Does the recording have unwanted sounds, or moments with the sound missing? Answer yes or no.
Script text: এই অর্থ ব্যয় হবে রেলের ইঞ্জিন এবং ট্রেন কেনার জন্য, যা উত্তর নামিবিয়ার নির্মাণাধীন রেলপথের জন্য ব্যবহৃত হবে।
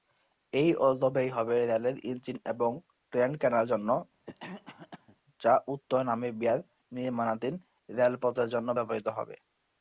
yes